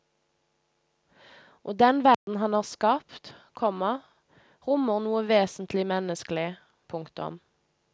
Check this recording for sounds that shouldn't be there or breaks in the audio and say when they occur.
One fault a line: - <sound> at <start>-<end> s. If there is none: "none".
- dropout at 2.1-2.3 s